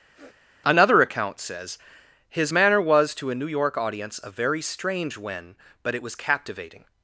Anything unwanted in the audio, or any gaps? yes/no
yes